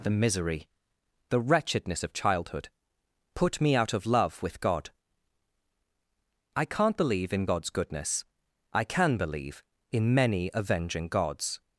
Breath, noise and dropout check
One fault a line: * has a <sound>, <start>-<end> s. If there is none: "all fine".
all fine